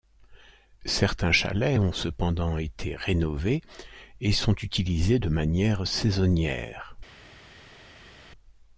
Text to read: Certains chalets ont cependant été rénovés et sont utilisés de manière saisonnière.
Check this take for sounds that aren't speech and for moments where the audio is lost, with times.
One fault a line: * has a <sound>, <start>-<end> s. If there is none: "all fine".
all fine